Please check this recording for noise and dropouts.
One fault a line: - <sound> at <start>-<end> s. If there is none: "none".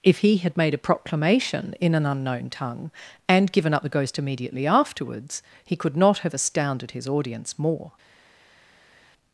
none